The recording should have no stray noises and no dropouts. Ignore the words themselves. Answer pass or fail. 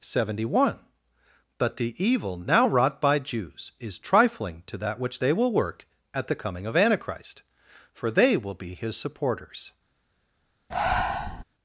fail